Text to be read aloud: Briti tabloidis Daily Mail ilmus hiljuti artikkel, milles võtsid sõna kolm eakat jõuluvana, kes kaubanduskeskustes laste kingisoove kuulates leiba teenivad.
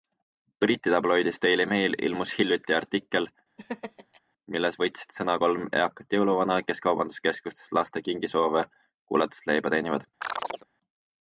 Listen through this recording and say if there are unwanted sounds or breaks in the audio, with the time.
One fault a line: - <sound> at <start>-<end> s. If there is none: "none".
- laugh at 3.6-4.2 s
- chirp at 10.2-10.7 s